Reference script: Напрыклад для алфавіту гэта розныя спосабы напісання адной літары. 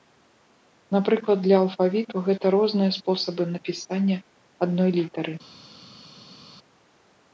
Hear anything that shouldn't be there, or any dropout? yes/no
no